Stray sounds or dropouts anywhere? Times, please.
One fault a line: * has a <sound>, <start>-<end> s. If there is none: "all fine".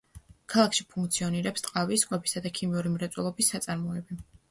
all fine